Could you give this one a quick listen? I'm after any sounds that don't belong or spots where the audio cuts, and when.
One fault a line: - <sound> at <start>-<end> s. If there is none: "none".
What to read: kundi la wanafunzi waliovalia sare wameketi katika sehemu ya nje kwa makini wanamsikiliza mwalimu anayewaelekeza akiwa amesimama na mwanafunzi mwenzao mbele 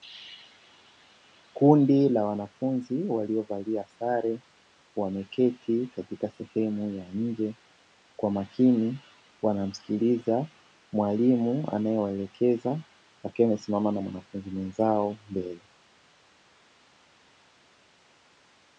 none